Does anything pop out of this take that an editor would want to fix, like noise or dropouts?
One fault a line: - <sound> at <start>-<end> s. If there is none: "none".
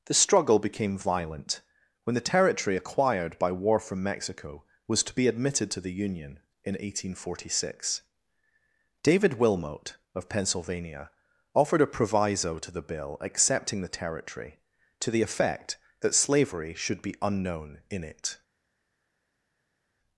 none